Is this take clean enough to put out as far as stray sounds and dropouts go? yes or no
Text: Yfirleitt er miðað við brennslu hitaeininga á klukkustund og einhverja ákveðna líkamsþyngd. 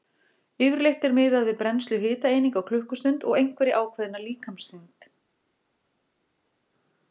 yes